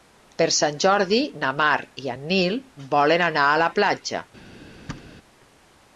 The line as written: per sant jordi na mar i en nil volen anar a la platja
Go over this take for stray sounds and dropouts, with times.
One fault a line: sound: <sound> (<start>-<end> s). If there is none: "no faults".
sound: thud (4.9-5.1 s)